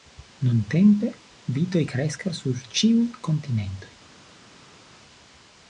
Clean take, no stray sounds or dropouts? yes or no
yes